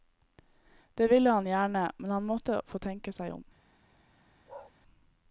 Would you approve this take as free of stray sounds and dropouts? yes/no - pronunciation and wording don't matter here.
no